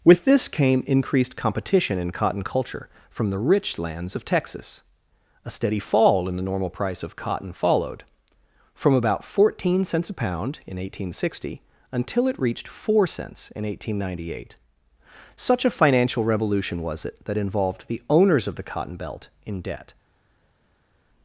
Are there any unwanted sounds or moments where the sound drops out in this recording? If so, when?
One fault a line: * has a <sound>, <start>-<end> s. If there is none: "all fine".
all fine